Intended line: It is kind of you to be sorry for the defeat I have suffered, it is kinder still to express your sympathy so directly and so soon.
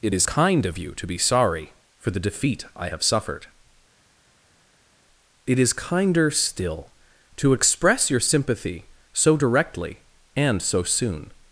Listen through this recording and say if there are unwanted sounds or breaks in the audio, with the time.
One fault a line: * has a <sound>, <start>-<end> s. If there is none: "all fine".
all fine